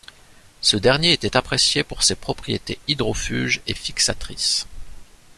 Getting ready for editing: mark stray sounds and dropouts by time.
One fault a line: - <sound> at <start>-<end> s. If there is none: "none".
none